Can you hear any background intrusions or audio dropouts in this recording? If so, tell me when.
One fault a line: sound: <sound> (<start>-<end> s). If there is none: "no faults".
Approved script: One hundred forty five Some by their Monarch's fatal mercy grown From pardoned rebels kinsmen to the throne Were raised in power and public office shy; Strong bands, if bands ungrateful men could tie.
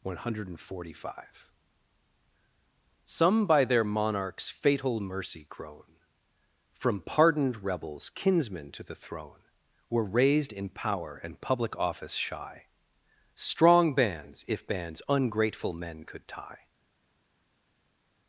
no faults